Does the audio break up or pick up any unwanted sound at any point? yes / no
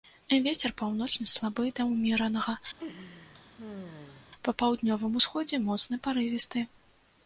yes